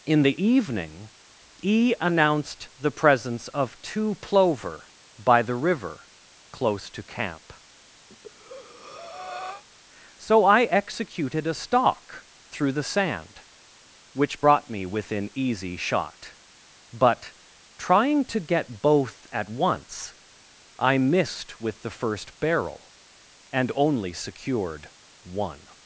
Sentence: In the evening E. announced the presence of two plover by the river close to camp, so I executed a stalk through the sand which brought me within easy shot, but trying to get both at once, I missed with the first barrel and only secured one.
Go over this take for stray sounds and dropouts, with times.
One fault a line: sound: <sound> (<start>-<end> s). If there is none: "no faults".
sound: breath (8.1-9.6 s)